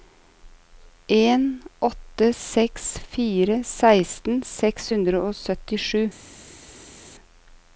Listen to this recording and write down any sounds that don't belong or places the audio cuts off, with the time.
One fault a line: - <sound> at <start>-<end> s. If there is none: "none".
none